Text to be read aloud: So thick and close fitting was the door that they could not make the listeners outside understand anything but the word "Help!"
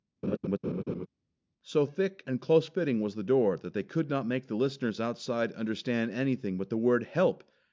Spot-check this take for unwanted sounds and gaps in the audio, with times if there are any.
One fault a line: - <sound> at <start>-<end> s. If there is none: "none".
- laugh at 0.2-1.1 s